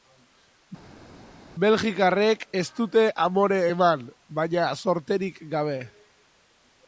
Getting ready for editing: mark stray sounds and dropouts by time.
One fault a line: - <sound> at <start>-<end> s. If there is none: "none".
none